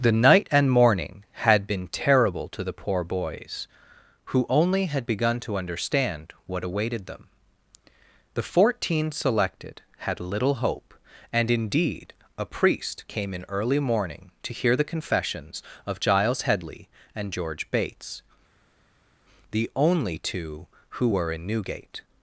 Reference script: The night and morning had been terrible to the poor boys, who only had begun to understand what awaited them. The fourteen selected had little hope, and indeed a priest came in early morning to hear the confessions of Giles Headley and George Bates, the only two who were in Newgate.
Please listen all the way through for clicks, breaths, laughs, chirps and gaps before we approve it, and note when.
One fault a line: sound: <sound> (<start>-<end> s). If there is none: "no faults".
no faults